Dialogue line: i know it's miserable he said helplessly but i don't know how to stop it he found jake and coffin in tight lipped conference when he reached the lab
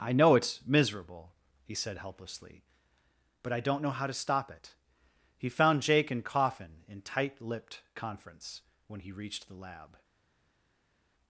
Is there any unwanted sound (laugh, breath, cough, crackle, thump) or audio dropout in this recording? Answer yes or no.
no